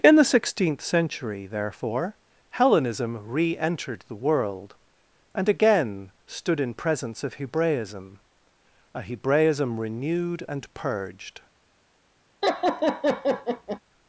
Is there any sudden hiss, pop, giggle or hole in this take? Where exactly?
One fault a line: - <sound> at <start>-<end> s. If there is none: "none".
- laugh at 12.4-13.8 s